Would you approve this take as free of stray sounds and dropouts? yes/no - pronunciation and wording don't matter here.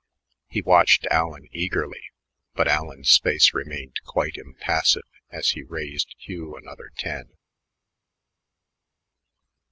yes